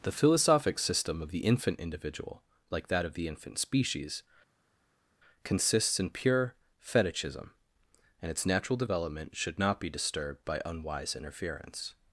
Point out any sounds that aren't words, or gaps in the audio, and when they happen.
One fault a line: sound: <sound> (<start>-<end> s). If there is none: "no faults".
no faults